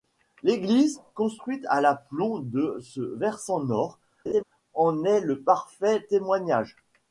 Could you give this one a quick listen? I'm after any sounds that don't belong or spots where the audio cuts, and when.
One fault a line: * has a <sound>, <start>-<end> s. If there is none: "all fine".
* has a laugh, 4.3-4.4 s